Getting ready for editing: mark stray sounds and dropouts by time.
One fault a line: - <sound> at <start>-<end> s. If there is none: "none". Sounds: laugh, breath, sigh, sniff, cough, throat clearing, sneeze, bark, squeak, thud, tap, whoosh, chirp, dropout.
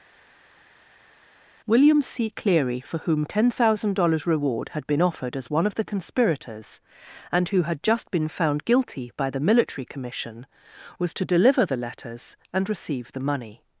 none